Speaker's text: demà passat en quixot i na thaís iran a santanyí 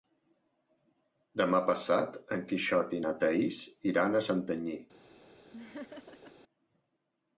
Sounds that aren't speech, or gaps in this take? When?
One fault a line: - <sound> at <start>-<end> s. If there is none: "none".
- laugh at 5.5-6.3 s